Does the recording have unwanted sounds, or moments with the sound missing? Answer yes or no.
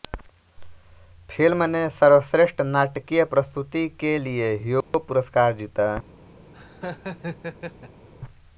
yes